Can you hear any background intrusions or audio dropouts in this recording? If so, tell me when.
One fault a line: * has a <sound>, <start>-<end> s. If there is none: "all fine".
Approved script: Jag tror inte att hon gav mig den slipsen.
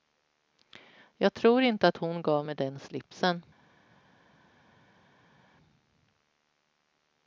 all fine